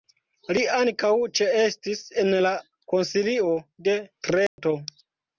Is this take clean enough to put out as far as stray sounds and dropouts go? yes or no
no